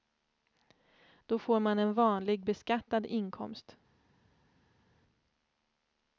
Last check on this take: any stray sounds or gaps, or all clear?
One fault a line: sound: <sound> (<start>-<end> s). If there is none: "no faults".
no faults